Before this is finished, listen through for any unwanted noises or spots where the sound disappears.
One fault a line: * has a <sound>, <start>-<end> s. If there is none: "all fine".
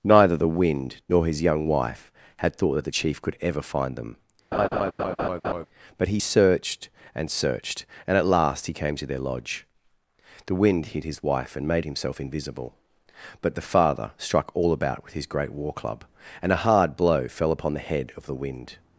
* has a laugh, 4.5-5.7 s